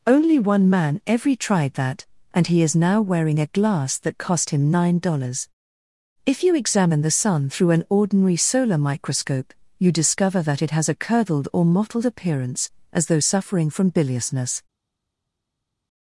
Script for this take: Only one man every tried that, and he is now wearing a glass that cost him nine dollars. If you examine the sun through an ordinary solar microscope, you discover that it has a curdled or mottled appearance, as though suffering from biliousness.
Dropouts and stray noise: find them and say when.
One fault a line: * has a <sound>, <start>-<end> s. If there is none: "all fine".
all fine